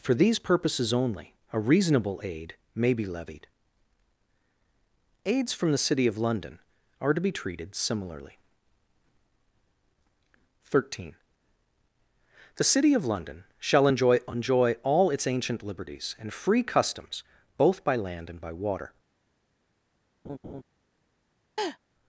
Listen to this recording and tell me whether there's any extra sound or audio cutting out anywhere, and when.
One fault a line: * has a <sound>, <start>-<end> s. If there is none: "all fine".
* has a laugh, 20.2-20.6 s
* has a laugh, 21.6-21.8 s